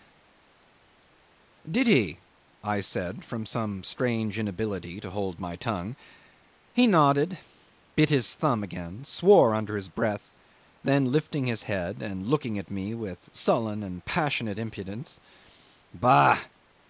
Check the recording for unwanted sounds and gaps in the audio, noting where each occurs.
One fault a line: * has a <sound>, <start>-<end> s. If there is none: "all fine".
all fine